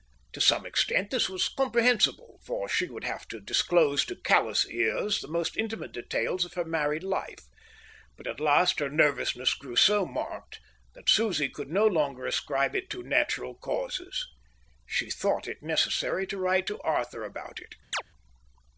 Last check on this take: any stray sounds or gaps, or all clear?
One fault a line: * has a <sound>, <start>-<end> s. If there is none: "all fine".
* has a chirp, 17.9-18.0 s